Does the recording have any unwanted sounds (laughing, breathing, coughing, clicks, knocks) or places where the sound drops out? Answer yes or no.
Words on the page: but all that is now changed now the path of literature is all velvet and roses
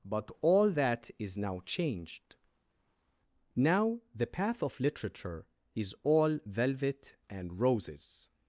no